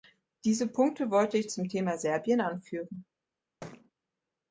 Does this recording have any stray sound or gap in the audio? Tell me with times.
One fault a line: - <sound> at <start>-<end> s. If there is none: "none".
- thud at 3.6-3.9 s